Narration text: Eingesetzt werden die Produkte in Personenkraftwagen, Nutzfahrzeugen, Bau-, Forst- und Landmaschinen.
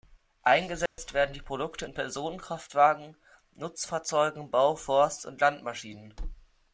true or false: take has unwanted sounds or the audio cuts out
true